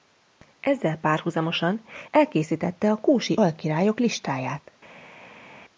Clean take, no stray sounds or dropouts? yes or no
yes